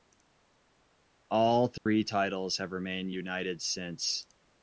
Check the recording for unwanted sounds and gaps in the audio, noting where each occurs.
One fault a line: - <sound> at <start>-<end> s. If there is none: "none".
- dropout at 1.8-1.9 s